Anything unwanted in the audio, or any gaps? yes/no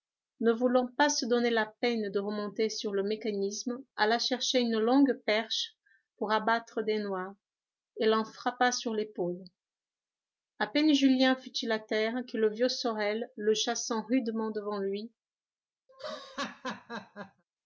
yes